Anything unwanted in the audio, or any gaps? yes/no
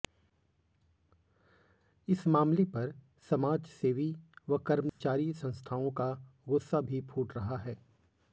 yes